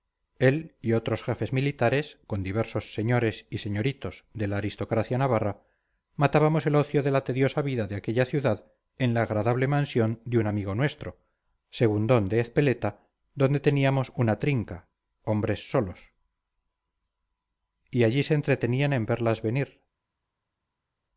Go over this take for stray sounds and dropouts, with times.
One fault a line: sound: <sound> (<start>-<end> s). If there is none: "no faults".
no faults